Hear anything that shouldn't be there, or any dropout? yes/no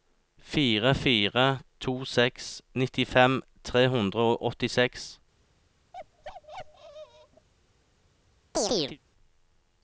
yes